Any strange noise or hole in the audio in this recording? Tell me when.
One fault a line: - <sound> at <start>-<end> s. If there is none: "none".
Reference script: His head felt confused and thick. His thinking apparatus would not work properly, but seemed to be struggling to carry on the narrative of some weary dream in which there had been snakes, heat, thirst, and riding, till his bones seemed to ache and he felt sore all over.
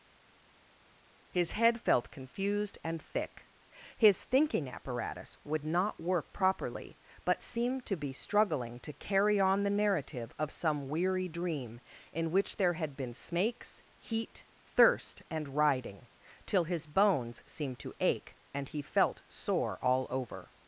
none